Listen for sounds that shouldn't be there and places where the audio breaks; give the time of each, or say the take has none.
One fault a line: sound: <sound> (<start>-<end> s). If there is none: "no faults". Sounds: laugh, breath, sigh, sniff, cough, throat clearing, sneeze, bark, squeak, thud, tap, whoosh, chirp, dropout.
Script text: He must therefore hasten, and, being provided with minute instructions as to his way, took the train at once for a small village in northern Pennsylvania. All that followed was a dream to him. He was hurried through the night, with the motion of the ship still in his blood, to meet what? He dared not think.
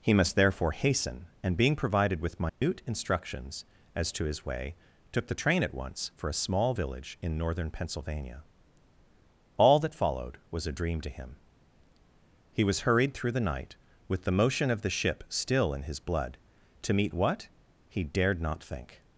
sound: dropout (2.5-2.6 s)